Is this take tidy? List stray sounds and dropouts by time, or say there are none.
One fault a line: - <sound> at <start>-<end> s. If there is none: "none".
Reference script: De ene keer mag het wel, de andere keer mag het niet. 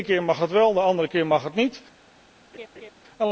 - laugh at 2.5-2.9 s